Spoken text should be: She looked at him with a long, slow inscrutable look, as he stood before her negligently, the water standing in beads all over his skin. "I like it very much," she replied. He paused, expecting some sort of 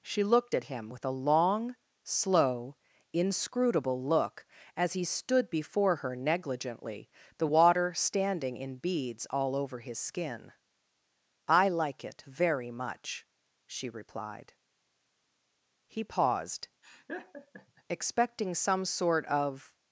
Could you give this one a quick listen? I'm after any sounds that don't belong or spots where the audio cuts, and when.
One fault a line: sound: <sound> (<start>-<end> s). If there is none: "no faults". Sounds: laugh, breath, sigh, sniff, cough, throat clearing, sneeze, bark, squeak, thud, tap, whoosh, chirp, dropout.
sound: laugh (16.8-17.8 s)